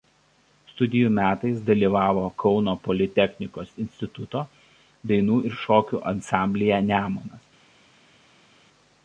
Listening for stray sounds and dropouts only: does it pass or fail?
pass